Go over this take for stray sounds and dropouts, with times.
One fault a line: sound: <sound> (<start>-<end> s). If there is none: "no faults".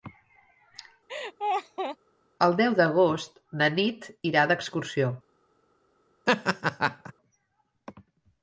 sound: laugh (1.1-2.0 s)
sound: laugh (6.3-7.1 s)